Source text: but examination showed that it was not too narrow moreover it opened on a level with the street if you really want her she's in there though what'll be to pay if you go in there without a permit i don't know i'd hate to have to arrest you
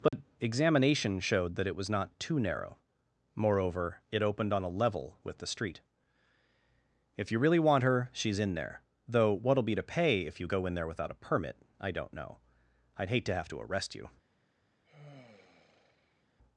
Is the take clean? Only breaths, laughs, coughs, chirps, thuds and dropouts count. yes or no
no